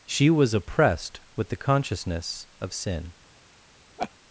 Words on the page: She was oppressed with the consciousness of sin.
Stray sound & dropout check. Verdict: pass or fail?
fail